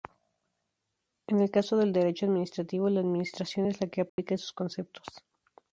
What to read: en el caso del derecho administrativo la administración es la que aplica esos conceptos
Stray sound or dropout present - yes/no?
yes